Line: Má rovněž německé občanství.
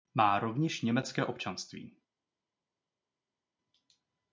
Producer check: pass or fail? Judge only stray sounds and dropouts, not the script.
pass